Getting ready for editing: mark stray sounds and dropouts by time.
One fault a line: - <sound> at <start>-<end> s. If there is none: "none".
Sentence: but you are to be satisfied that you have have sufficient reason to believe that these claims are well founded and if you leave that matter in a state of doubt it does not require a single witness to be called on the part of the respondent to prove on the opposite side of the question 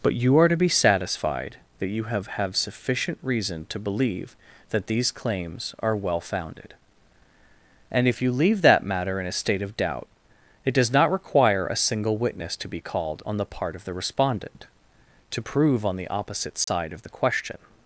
- dropout at 16.6-16.7 s